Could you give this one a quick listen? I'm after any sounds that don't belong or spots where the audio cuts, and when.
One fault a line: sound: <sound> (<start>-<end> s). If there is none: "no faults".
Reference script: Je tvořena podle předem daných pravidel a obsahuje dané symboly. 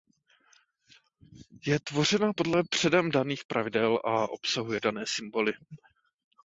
no faults